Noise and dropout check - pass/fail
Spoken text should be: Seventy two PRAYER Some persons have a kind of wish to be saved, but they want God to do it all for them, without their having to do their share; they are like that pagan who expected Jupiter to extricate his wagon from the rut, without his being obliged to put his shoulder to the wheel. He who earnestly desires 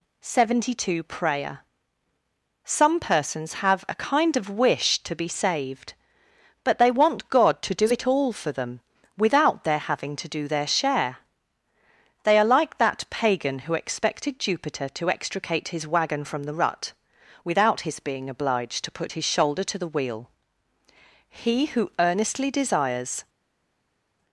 pass